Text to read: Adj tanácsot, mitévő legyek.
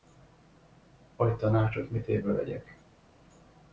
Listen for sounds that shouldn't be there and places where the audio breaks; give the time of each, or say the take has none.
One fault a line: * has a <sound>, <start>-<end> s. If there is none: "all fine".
all fine